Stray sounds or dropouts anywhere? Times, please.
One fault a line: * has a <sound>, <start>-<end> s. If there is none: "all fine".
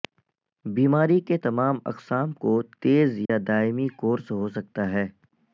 * has a dropout, 3.3-3.3 s